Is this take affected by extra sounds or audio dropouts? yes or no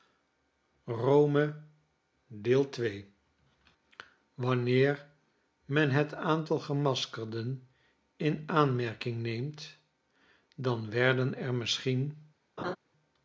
yes